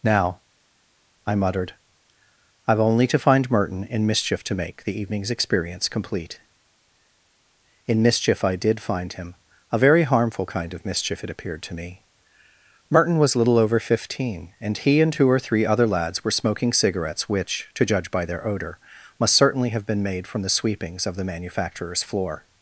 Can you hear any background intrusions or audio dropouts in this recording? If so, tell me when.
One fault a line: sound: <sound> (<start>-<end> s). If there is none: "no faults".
no faults